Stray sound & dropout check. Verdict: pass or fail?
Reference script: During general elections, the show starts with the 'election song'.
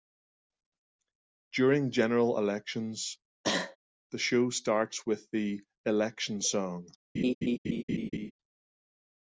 fail